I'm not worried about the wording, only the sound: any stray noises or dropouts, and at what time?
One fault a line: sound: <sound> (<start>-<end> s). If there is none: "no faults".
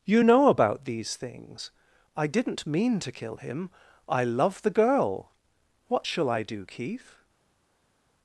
no faults